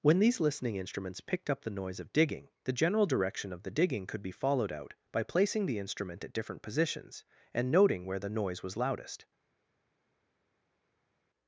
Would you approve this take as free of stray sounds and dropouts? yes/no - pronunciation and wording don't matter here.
yes